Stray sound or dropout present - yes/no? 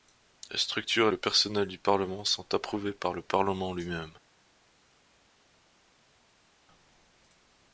no